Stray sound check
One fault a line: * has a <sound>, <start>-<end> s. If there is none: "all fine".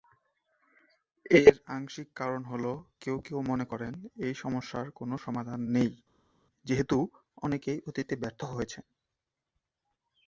all fine